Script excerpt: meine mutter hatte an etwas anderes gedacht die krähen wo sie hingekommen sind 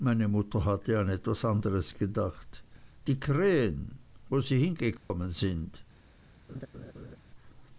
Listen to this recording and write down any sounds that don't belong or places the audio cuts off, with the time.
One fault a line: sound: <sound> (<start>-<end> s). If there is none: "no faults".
sound: dropout (5.0-5.1 s)
sound: laugh (6.5-7.2 s)